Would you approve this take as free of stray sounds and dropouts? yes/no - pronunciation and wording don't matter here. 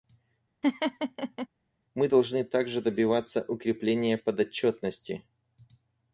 no